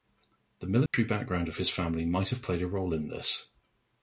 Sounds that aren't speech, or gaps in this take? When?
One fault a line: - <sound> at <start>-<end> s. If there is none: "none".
- dropout at 0.9-0.9 s